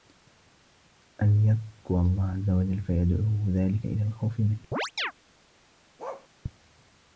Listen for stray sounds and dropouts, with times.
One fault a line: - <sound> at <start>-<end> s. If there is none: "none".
- chirp at 4.7-5.1 s
- bark at 6.0-6.3 s